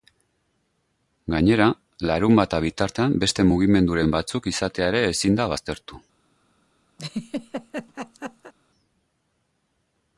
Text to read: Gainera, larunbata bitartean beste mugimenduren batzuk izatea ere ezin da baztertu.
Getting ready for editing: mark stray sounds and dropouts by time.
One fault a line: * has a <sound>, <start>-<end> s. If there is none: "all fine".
* has a laugh, 7.0-8.5 s